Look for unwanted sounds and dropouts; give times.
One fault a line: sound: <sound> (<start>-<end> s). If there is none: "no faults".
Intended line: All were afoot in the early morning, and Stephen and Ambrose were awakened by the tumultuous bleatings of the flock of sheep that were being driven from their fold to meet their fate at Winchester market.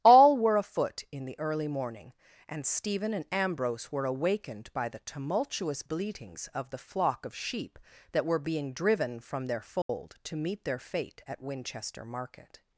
sound: dropout (9.8-9.9 s)